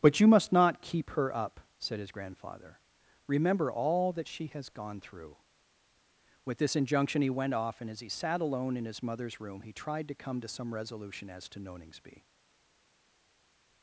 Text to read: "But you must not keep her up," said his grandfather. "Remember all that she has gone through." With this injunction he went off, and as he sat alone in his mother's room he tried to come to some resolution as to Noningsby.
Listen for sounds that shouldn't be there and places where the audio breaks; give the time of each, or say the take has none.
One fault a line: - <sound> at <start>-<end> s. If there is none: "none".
none